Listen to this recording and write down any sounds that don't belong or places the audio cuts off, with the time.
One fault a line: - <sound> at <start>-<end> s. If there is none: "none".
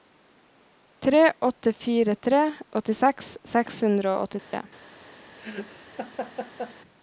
- dropout at 4.4-4.5 s
- laugh at 5.4-6.8 s